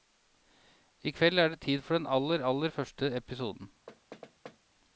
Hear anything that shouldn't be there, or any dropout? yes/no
yes